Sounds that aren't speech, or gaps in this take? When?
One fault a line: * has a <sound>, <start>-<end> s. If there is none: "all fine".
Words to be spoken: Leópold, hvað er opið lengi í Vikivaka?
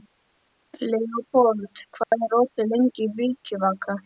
* has a dropout, 2.0-2.1 s